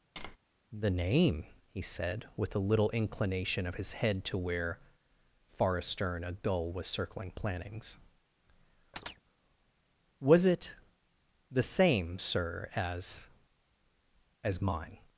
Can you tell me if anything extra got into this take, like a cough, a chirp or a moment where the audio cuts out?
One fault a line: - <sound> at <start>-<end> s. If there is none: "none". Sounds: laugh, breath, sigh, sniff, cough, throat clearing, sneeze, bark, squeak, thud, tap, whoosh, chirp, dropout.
- tap at 0.2-0.4 s
- chirp at 8.9-9.2 s